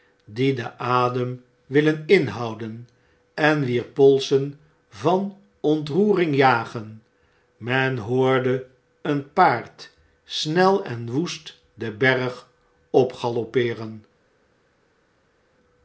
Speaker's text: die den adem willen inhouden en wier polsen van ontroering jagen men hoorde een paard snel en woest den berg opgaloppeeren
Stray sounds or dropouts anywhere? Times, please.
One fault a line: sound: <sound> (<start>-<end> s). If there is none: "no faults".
no faults